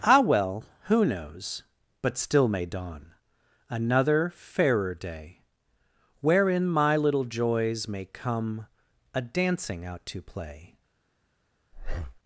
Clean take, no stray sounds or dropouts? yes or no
no